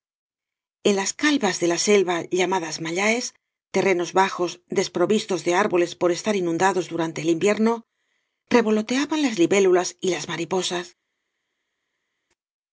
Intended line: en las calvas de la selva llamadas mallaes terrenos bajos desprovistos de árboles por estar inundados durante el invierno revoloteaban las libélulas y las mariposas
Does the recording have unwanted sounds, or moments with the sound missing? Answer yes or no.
no